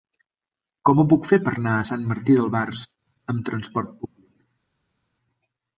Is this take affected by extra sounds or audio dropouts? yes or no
no